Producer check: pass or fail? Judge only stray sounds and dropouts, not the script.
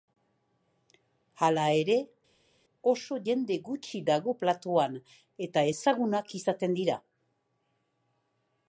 pass